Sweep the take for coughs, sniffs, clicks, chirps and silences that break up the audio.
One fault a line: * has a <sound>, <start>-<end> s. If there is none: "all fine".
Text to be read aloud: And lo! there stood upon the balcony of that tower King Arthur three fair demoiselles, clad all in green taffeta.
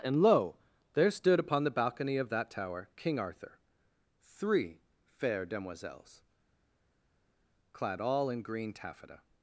all fine